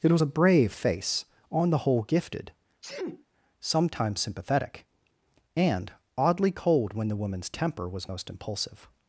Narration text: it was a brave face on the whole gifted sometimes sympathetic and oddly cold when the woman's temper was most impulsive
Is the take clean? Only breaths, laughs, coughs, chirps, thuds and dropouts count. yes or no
no